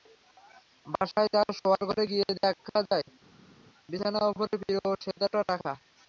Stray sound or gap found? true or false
false